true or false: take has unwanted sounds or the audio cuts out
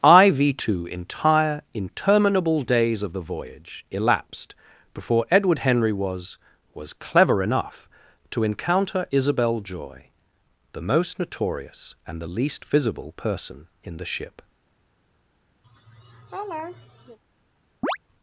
true